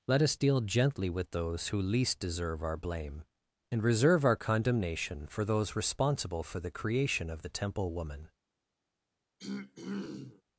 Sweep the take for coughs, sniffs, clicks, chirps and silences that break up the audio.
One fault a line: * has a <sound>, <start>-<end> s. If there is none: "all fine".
* has a throat clearing, 9.4-10.4 s